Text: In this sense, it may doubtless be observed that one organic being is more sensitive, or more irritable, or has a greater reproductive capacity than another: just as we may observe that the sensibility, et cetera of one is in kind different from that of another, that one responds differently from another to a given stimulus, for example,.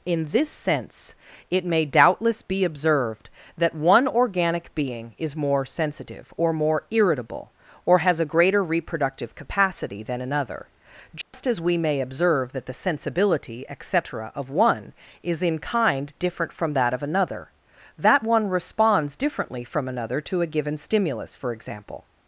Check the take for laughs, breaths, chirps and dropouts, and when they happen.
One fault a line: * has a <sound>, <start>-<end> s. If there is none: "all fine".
* has a dropout, 11.2-11.3 s